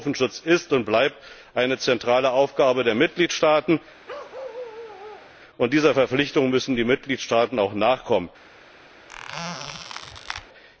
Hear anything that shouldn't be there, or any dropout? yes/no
yes